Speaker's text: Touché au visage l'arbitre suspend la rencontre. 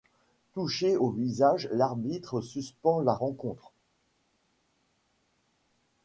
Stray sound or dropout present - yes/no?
no